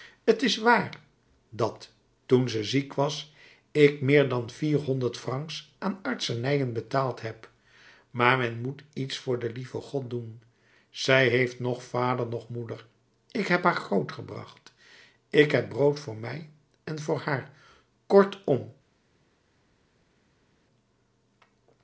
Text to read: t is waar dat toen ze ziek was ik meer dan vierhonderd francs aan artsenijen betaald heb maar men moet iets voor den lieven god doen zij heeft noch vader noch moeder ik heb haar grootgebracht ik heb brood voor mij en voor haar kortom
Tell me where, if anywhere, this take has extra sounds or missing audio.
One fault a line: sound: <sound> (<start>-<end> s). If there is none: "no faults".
no faults